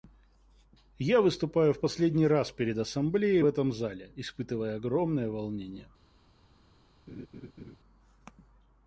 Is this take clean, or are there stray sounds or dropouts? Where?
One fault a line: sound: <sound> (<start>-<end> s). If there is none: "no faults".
sound: laugh (7.1-7.8 s)